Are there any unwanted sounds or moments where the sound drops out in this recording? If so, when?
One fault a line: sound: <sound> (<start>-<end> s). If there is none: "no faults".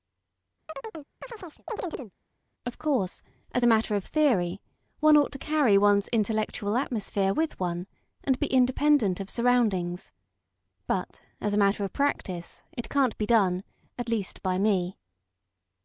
sound: chirp (0.7-2.1 s)